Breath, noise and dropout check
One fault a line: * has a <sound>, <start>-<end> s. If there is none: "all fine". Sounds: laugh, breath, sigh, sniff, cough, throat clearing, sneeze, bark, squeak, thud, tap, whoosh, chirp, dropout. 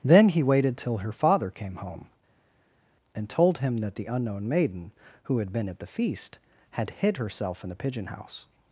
all fine